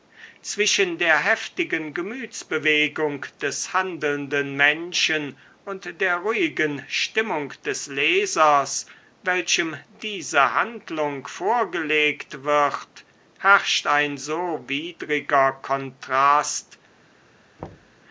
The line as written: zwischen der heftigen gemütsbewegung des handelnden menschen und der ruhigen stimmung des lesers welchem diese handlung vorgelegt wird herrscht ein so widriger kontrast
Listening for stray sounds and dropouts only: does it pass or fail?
fail